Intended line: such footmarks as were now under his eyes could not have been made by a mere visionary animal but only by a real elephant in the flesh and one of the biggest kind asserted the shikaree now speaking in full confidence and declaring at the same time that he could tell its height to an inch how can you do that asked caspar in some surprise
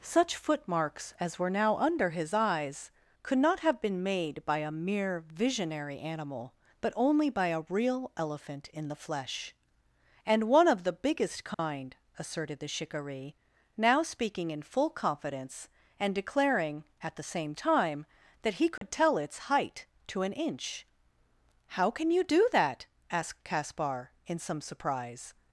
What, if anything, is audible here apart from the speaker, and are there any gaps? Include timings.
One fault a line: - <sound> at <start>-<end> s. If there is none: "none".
- dropout at 11.5-11.6 s
- dropout at 18.8-18.8 s